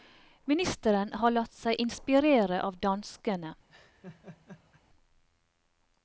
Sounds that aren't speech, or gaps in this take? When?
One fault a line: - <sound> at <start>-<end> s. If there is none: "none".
- laugh at 3.7-4.8 s